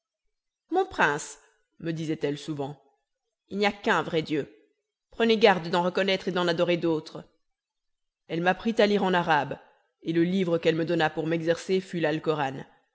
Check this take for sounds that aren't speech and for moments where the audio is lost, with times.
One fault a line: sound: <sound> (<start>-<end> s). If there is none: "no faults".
no faults